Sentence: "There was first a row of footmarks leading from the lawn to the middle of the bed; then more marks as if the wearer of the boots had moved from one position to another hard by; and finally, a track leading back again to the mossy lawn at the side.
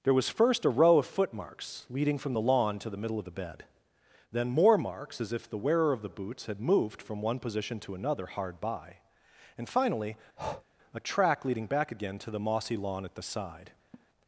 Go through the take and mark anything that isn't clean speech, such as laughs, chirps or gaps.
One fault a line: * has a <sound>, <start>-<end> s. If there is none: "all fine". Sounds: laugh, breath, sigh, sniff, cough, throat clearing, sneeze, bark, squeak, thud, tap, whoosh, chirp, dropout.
* has a breath, 10.4-10.6 s
* has a laugh, 13.9-14.1 s